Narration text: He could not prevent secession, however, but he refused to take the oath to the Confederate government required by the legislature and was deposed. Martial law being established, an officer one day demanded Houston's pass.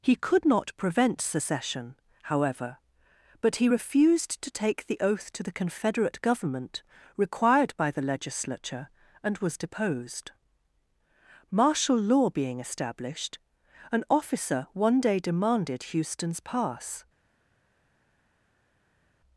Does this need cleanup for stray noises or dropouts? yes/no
no